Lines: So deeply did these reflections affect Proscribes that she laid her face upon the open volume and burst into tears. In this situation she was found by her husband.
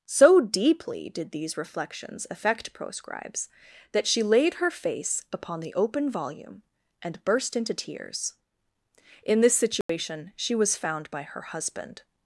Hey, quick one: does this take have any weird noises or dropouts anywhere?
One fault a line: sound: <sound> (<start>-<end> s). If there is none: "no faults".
sound: dropout (9.8-9.9 s)